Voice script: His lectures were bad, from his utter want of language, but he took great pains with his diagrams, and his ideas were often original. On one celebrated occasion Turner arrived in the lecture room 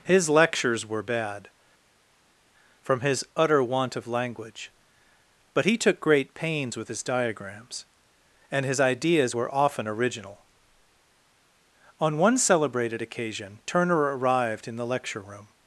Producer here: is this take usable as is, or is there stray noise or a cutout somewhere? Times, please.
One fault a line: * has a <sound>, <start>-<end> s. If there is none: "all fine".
all fine